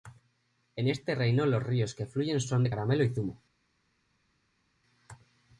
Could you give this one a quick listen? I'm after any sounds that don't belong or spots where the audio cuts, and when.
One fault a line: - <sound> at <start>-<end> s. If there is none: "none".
none